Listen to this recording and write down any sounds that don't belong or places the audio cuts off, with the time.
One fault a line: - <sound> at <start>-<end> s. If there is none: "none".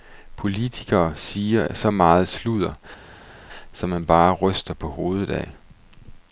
none